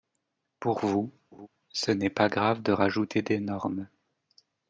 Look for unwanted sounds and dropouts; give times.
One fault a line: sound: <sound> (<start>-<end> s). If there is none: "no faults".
sound: laugh (1.3-1.5 s)